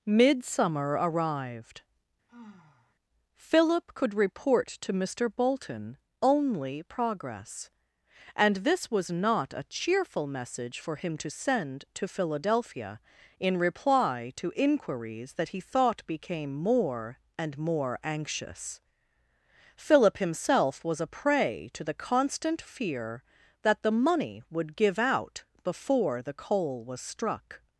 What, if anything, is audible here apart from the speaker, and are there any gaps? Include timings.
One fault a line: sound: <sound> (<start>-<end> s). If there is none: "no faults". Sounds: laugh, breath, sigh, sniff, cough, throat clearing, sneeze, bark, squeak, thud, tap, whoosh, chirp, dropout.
sound: sigh (2.3-2.9 s)